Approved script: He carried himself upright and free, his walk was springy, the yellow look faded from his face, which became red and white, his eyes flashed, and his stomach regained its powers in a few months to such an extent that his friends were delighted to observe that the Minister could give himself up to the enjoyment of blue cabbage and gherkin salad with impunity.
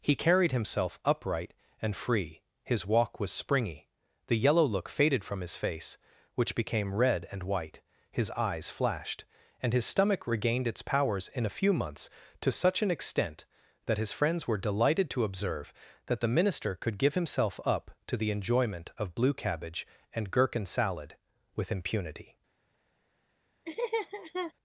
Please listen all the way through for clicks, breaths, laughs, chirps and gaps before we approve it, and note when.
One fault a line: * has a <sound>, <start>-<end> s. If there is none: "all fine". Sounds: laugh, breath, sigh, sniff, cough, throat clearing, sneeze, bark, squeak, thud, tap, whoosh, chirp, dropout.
* has a laugh, 23.6-24.5 s